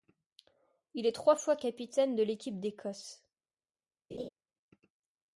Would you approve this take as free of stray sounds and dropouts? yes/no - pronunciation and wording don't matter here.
no